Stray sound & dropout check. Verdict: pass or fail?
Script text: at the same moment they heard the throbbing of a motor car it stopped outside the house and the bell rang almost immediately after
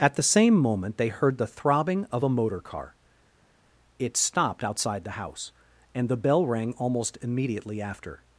pass